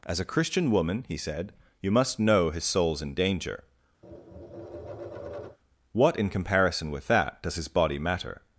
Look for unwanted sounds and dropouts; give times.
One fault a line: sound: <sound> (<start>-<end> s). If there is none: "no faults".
sound: tap (4.0-5.6 s)